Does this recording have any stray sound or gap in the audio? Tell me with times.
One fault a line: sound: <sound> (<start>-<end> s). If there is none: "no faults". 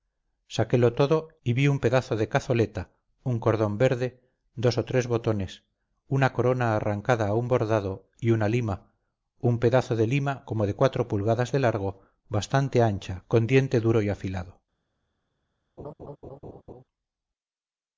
sound: laugh (15.8-16.8 s)